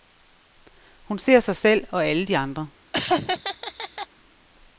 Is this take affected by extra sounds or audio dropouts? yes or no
yes